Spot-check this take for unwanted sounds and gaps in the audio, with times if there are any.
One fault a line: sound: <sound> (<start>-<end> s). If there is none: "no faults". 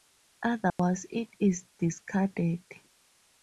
sound: dropout (0.7-0.8 s)